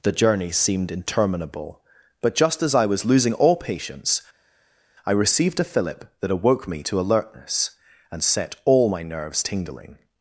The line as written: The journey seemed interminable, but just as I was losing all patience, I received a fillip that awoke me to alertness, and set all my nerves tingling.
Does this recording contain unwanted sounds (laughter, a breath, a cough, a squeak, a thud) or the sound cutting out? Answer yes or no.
no